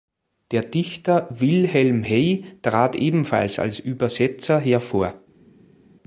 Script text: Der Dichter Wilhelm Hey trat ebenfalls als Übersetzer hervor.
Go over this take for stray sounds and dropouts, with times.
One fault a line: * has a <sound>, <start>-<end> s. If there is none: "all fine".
all fine